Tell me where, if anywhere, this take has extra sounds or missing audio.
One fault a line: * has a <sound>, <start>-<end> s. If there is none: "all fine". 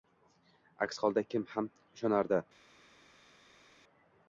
all fine